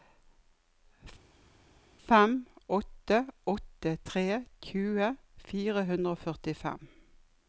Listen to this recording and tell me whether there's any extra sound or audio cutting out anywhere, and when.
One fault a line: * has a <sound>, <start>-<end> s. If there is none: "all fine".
all fine